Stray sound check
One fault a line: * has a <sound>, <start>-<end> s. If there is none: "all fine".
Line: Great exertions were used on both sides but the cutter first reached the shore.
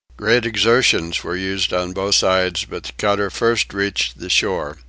all fine